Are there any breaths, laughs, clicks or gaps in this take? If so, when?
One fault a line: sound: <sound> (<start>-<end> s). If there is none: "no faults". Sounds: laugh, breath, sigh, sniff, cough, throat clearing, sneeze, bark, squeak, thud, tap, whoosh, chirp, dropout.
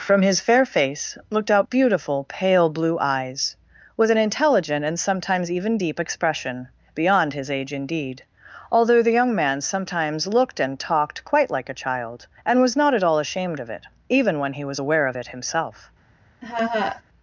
sound: laugh (16.4-17.0 s)